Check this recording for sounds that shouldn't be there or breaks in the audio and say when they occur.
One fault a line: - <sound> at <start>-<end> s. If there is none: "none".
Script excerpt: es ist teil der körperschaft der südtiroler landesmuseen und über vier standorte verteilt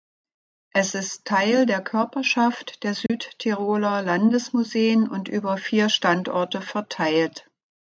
- dropout at 3.1-3.1 s